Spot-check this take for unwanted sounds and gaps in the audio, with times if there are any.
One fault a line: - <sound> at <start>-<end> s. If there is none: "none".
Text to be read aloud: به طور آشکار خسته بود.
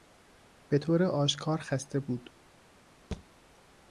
- thud at 3.1-3.3 s